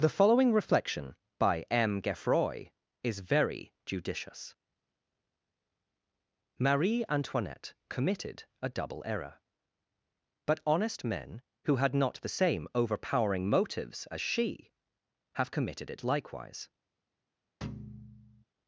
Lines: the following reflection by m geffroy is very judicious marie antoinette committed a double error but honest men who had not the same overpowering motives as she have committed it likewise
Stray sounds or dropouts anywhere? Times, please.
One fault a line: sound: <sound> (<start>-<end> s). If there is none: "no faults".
sound: thud (17.6-18.4 s)